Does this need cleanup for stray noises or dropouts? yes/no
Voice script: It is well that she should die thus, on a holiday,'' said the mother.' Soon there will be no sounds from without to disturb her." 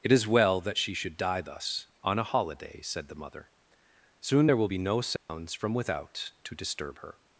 yes